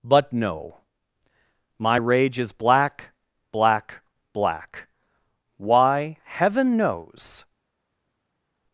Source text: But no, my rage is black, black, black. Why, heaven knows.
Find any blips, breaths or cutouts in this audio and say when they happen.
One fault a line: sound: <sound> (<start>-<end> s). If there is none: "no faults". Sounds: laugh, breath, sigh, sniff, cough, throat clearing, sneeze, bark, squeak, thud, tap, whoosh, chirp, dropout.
no faults